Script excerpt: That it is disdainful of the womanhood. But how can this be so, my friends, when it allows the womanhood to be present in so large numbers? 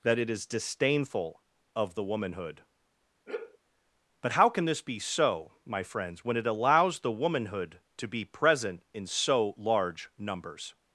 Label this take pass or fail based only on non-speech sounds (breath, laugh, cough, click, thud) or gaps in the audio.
fail